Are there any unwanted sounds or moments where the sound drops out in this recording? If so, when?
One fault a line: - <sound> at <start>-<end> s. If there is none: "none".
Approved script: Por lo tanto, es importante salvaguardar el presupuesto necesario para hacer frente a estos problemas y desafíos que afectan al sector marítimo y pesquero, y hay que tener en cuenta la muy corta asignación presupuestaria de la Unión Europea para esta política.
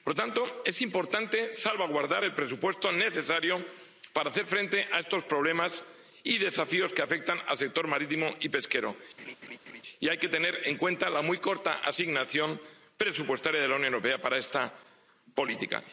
- laugh at 9.2-9.8 s